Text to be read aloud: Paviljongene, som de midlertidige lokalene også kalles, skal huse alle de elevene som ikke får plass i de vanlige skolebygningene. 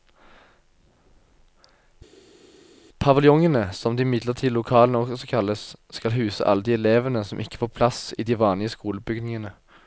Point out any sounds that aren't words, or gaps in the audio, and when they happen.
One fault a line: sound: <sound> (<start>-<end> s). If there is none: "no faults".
no faults